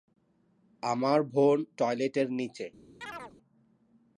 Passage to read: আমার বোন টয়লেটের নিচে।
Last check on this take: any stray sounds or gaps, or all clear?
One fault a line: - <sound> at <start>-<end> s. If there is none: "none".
- chirp at 3.0-3.3 s